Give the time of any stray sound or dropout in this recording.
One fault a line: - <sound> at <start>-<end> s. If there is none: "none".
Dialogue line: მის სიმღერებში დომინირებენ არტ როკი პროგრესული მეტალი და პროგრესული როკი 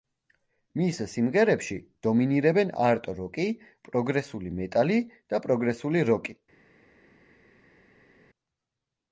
none